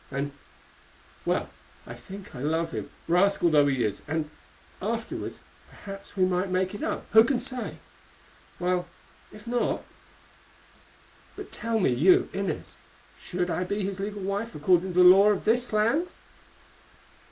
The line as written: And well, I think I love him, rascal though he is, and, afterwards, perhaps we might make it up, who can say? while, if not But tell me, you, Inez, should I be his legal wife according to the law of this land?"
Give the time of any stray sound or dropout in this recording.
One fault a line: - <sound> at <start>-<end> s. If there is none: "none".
none